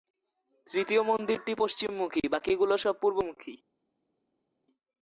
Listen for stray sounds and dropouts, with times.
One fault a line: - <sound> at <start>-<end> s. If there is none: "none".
none